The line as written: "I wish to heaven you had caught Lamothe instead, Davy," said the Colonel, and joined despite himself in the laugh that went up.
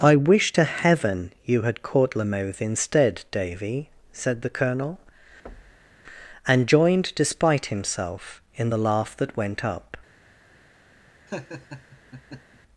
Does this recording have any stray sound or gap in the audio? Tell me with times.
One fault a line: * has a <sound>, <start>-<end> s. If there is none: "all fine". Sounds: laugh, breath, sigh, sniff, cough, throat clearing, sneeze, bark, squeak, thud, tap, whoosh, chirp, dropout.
* has a thud, 5.5-6.0 s
* has a laugh, 11.3-12.6 s